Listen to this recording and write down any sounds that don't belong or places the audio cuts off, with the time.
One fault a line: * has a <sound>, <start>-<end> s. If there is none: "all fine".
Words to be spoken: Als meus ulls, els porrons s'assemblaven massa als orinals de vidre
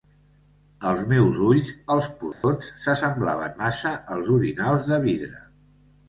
* has a dropout, 2.3-2.4 s